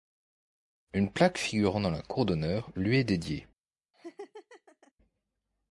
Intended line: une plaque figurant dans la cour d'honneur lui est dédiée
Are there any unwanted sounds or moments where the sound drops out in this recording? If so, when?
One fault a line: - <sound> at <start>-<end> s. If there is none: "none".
- laugh at 3.9-4.9 s